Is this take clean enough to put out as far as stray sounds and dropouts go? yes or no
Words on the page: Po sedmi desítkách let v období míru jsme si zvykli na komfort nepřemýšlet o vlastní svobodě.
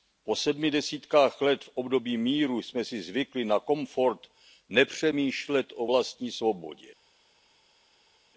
yes